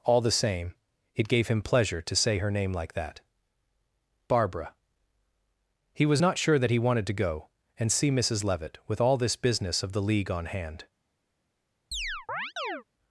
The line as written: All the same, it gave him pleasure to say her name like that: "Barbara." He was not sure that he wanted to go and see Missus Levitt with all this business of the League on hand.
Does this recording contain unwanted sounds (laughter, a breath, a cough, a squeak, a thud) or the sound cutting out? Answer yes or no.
yes